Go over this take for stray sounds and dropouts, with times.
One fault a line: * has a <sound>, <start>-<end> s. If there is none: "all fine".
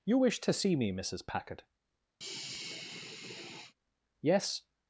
* has a sigh, 2.2-3.7 s